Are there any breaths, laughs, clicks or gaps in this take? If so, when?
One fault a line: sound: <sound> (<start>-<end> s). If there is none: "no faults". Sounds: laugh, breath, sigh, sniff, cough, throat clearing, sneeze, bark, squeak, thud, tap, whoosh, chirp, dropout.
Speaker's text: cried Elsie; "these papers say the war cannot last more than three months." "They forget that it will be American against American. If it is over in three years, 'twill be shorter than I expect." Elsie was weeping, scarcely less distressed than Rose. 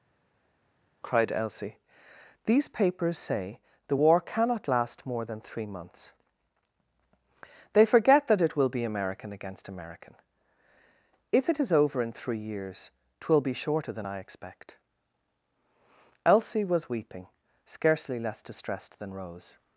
no faults